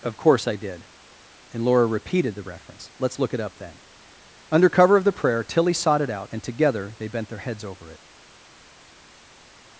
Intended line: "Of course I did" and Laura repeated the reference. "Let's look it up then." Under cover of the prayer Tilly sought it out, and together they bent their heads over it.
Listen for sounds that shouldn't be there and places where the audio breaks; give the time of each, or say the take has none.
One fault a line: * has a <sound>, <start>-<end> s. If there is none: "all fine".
all fine